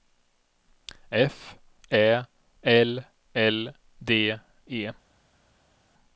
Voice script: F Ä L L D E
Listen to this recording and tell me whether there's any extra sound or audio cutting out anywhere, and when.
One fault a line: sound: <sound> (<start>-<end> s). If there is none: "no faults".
no faults